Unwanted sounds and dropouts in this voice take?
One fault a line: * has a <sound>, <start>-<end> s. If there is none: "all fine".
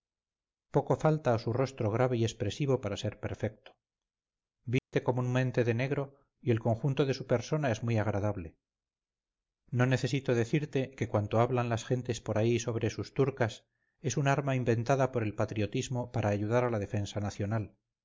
* has a dropout, 4.8-4.9 s